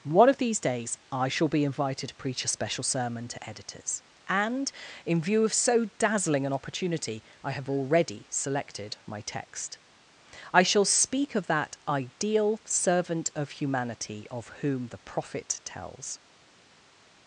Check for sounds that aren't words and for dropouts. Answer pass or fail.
pass